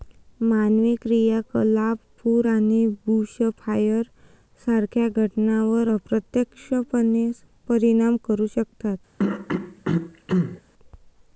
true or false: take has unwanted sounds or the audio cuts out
true